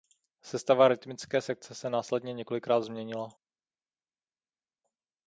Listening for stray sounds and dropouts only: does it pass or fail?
pass